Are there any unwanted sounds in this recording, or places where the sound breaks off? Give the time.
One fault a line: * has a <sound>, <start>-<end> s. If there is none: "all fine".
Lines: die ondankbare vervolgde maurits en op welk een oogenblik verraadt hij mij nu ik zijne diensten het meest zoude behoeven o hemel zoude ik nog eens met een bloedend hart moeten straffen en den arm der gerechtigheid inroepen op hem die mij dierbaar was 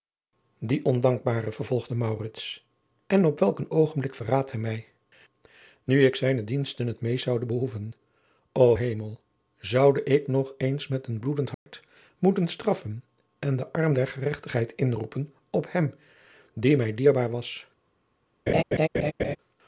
* has a dropout, 11.5-11.7 s
* has a laugh, 18.5-19.4 s